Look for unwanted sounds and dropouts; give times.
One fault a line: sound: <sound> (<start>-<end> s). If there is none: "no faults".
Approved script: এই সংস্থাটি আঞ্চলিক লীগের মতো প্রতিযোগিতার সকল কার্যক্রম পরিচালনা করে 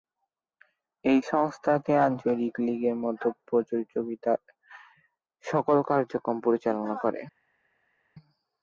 no faults